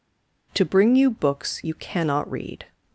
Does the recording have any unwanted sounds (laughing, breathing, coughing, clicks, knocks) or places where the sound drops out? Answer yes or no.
no